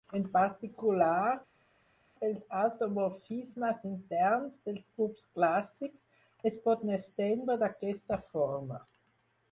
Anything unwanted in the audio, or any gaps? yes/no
no